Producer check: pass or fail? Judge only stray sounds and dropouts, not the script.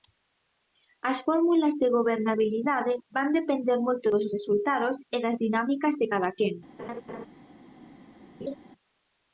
fail